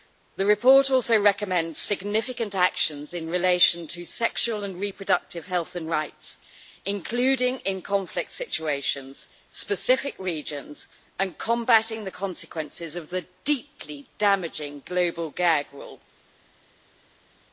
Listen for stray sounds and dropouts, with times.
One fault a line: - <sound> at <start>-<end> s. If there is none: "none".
none